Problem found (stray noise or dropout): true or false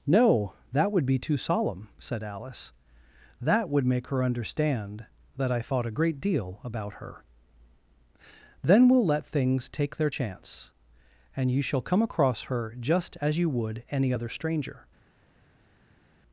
false